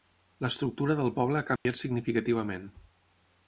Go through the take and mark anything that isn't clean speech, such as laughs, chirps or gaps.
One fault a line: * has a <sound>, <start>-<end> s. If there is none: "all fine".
* has a dropout, 1.6-1.7 s